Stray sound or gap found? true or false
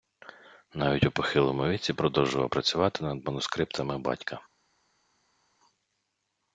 false